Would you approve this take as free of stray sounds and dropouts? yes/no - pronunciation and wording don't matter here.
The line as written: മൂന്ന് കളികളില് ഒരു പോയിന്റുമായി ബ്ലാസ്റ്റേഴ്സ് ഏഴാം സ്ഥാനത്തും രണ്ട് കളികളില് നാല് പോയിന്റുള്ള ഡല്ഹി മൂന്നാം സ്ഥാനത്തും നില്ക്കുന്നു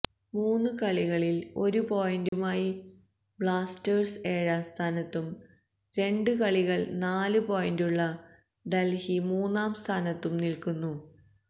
no